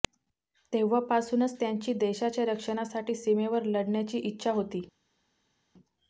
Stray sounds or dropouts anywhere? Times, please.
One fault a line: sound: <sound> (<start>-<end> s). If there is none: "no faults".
no faults